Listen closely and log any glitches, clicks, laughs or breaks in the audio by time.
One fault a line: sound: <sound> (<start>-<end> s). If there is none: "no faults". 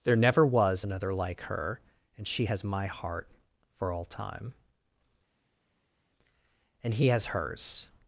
no faults